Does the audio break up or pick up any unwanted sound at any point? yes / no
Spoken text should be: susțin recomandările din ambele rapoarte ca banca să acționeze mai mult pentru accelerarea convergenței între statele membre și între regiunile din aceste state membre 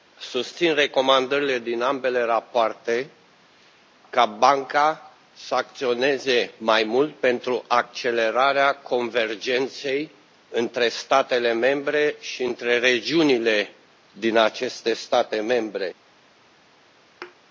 yes